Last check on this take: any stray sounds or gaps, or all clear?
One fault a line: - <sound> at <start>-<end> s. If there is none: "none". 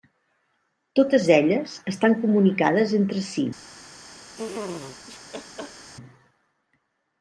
- laugh at 4.4-5.9 s